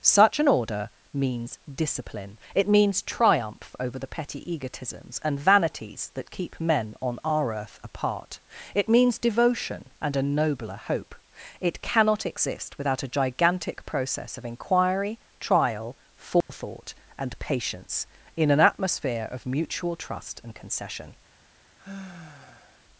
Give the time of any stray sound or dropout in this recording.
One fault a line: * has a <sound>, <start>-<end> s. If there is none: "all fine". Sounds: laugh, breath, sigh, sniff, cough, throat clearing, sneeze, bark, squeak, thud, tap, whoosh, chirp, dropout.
* has a dropout, 16.4-16.5 s
* has a sigh, 21.8-22.8 s